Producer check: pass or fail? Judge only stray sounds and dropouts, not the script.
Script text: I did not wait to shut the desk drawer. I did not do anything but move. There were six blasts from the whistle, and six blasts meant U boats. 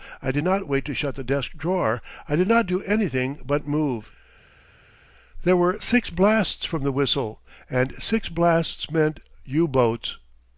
pass